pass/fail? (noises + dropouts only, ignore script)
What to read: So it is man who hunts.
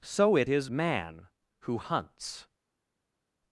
pass